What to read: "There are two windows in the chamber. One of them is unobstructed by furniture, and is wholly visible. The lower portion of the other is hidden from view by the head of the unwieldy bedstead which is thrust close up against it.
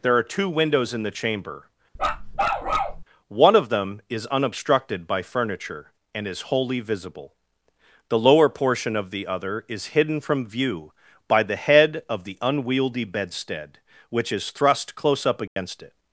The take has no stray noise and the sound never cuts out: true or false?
false